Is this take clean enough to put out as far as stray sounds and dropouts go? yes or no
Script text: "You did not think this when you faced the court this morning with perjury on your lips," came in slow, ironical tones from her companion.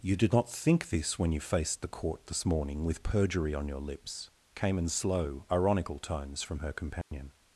no